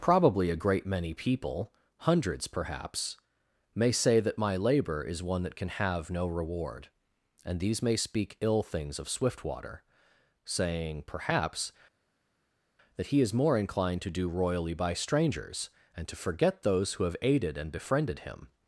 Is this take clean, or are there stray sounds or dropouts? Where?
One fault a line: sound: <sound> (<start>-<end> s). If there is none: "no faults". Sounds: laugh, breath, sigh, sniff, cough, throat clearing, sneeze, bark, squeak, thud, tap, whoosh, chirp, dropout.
no faults